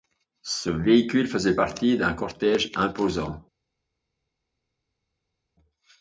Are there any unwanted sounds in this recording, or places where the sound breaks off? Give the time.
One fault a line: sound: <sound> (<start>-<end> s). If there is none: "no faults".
no faults